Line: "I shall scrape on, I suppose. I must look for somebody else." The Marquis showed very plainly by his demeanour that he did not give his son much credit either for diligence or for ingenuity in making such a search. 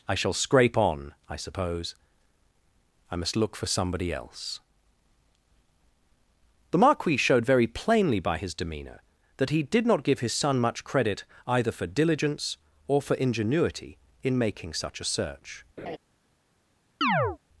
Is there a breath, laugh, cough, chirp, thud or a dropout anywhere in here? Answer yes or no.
yes